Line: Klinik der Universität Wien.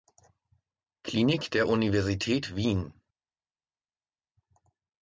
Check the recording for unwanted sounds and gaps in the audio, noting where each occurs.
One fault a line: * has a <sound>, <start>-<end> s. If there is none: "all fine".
all fine